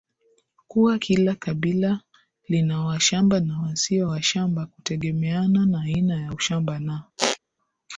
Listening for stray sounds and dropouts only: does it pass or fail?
fail